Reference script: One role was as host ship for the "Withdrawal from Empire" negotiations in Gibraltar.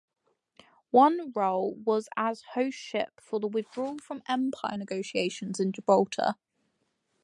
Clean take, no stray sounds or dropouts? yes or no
yes